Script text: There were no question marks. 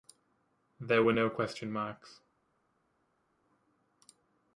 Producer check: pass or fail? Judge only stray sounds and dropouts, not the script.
pass